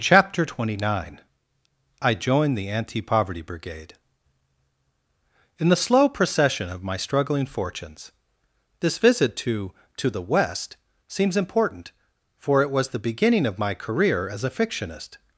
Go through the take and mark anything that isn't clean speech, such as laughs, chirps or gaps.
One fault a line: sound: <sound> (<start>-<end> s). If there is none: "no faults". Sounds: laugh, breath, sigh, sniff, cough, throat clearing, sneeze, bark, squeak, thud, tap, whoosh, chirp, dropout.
no faults